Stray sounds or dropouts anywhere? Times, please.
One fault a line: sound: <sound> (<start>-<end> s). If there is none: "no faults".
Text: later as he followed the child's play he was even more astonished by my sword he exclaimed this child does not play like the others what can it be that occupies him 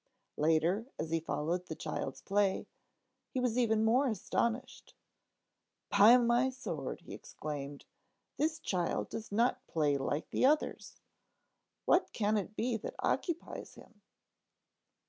no faults